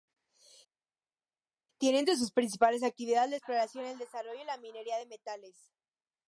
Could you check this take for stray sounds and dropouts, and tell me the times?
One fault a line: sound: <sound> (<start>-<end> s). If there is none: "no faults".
no faults